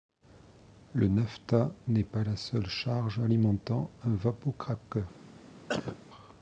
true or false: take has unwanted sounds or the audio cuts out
true